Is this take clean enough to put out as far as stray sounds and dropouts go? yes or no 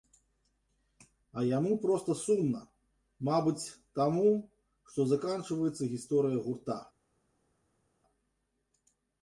yes